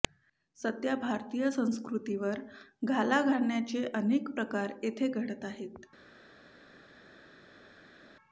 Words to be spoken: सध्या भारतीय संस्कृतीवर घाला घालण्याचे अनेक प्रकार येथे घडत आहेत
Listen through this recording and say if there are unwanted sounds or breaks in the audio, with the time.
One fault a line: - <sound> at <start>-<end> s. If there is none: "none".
none